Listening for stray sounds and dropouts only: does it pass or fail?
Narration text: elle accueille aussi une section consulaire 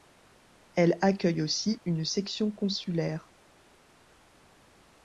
pass